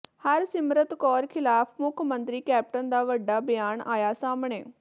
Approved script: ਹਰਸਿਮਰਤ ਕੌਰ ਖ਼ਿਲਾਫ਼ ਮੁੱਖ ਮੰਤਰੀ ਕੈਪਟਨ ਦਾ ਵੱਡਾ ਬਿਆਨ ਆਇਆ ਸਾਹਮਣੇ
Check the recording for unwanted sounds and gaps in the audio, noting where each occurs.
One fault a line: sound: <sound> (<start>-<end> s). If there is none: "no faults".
no faults